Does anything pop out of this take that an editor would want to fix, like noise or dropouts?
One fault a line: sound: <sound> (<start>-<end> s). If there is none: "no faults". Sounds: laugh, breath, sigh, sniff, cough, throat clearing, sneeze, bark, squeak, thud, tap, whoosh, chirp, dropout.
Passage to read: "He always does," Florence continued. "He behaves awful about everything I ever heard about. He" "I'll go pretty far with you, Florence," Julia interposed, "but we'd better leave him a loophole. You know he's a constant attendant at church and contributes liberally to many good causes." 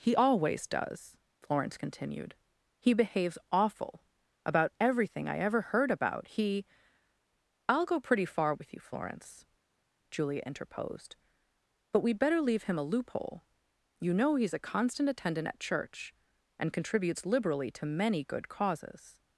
no faults